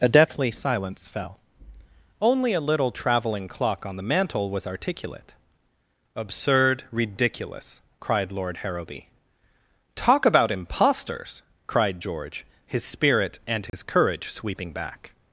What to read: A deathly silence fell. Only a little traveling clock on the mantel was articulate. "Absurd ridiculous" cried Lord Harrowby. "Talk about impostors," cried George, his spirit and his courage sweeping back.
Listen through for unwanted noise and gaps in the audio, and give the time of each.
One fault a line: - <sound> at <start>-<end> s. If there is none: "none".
- dropout at 13.7-13.7 s